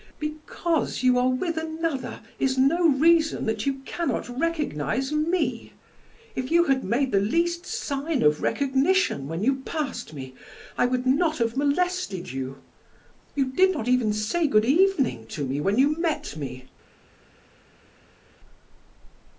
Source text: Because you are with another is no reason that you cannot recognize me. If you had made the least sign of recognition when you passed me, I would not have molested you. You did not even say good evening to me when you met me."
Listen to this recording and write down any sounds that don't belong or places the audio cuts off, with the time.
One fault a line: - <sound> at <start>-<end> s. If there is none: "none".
none